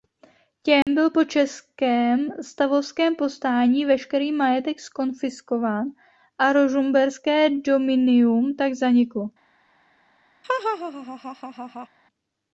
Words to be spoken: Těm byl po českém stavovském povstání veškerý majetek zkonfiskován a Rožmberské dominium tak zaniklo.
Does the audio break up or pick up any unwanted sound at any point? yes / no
yes